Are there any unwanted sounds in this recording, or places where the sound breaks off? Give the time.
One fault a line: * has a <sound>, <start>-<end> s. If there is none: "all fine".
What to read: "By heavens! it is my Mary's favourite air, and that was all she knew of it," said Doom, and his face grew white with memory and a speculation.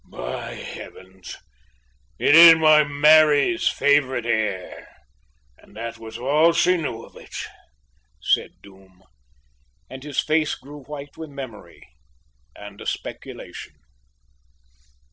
all fine